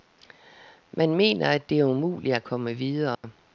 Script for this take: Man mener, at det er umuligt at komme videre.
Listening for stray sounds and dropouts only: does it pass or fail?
fail